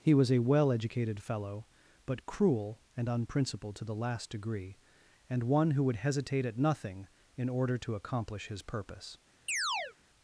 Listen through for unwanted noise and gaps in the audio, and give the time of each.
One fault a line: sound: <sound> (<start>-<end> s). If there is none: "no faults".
sound: chirp (9.5-9.9 s)